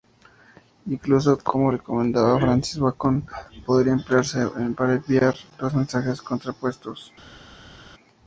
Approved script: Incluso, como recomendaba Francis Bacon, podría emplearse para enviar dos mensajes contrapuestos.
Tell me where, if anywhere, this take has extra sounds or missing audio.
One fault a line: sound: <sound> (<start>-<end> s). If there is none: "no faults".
no faults